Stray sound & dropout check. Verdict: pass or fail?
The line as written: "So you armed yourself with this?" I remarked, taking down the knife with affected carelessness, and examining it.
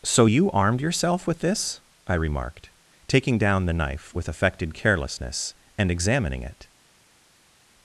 pass